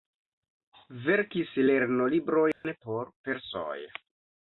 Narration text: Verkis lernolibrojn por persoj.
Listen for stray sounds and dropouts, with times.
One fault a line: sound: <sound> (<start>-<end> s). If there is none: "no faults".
sound: dropout (2.5-2.6 s)